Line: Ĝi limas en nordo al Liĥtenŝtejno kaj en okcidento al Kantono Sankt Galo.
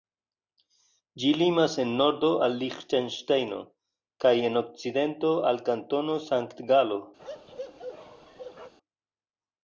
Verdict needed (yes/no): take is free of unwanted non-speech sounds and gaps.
no